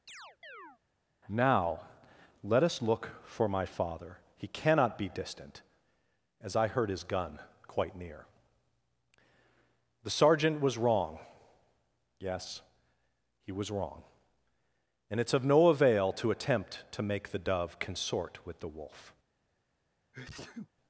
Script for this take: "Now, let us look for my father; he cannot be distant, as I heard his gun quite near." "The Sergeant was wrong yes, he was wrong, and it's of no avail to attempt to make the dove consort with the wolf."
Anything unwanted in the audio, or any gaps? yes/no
yes